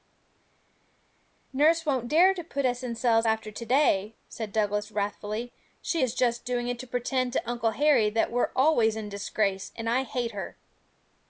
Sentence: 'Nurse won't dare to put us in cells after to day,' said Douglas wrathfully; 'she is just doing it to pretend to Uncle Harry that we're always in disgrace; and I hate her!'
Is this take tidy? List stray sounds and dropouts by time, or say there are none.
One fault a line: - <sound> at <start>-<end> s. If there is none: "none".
none